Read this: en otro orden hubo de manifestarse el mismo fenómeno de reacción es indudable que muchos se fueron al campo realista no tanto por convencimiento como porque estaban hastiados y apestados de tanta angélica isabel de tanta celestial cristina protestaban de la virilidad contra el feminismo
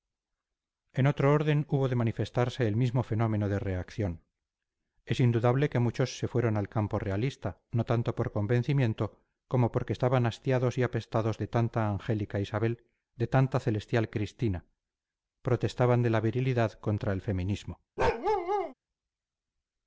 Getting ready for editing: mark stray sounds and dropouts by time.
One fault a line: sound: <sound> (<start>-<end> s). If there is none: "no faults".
sound: bark (18.0-18.7 s)